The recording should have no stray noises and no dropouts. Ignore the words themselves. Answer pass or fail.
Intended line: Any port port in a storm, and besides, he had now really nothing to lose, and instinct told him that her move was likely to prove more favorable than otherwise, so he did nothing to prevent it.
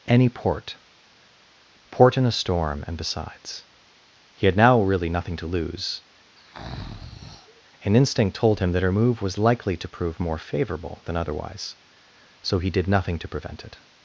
fail